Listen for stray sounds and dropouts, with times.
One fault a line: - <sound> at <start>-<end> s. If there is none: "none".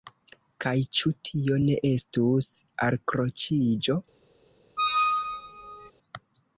- squeak at 4.8-5.9 s